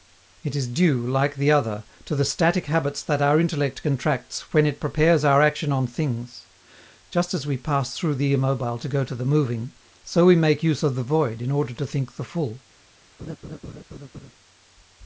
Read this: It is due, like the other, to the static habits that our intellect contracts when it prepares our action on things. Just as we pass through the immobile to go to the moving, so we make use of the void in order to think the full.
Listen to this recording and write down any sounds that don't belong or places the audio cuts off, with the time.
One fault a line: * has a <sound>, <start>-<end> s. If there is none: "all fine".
* has a laugh, 13.2-14.3 s